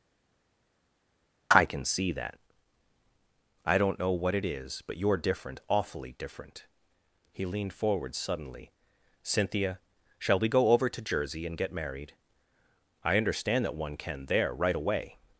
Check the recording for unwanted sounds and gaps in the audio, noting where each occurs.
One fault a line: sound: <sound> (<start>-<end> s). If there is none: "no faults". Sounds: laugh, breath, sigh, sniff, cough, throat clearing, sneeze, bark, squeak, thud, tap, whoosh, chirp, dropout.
no faults